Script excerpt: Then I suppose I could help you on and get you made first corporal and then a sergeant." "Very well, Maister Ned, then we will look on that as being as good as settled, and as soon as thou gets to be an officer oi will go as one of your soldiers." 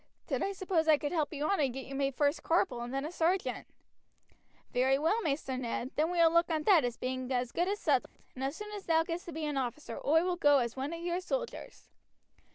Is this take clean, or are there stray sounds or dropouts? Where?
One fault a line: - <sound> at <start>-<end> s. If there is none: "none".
- dropout at 8.1-8.2 s